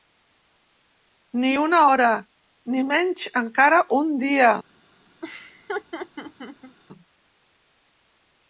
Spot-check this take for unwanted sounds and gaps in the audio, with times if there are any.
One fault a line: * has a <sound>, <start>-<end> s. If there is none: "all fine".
* has a laugh, 5.2-6.8 s